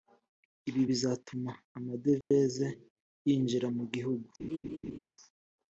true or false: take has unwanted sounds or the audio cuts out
true